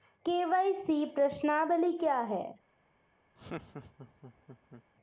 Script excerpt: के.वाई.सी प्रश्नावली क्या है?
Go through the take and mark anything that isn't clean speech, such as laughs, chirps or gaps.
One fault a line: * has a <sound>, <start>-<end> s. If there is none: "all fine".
* has a laugh, 3.4-4.8 s